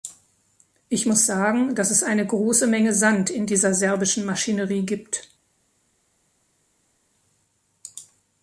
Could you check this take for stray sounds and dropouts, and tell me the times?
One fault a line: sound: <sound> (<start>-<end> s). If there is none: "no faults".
no faults